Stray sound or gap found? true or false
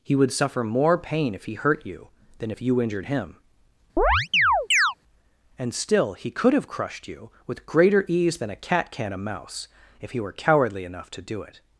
true